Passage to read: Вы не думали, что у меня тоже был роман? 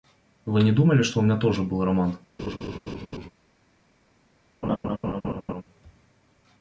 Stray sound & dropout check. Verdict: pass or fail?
fail